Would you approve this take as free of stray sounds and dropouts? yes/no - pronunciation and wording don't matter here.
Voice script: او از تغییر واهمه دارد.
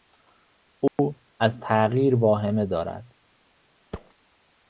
no